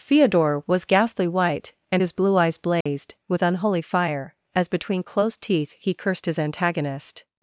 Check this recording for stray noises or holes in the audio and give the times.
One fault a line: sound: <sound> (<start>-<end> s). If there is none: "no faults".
sound: dropout (2.8-2.9 s)